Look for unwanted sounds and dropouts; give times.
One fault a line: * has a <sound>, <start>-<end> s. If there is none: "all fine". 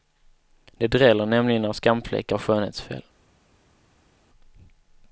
all fine